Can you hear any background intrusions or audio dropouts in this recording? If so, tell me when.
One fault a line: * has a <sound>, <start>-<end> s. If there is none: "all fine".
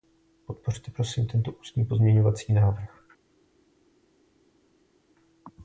all fine